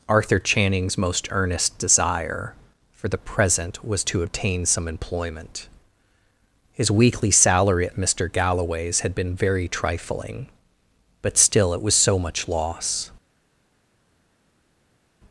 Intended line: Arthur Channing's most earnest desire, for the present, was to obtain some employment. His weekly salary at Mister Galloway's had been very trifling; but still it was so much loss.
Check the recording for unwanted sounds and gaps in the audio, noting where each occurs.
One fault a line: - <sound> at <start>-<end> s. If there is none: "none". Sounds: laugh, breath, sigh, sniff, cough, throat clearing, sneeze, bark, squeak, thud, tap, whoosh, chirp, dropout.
none